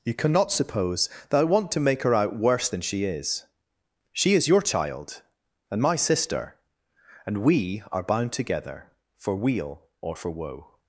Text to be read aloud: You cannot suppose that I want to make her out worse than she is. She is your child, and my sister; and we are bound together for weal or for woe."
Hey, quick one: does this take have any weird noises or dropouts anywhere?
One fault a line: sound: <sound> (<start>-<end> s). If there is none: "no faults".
no faults